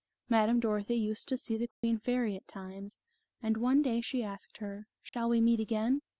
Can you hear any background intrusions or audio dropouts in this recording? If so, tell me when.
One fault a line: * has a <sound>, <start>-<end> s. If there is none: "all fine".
* has a dropout, 1.7-1.8 s
* has a dropout, 5.1-5.1 s